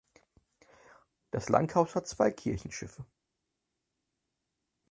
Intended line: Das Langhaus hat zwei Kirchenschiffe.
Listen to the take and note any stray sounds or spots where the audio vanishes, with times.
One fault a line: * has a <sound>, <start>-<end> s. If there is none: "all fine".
all fine